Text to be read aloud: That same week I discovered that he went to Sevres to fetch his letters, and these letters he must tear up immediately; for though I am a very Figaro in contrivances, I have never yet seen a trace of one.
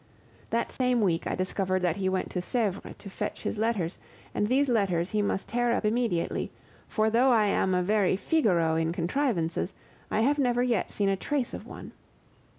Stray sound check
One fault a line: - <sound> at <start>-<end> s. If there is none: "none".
- dropout at 0.8-0.8 s